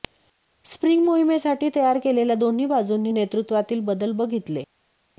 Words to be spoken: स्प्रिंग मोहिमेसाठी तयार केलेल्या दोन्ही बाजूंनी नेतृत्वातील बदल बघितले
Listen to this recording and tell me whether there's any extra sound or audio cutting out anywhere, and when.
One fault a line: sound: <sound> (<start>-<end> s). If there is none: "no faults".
no faults